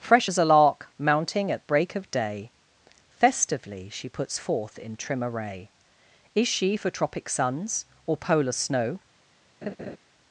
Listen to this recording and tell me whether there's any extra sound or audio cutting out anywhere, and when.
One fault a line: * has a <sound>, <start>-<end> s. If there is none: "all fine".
* has a laugh, 9.6-10.0 s